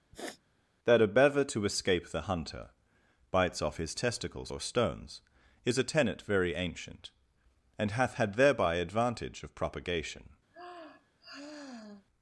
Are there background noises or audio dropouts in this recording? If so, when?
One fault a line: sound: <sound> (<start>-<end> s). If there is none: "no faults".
sound: sniff (0.1-0.4 s)
sound: sigh (10.5-12.1 s)